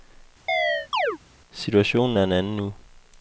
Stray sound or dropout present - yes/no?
yes